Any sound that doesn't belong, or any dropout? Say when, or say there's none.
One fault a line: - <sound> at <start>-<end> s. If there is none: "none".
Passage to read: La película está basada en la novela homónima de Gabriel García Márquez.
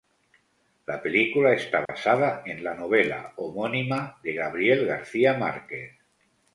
- dropout at 1.9-1.9 s